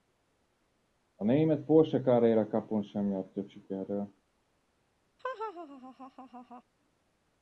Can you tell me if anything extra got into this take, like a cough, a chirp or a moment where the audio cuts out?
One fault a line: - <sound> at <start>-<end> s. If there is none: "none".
- laugh at 5.2-6.6 s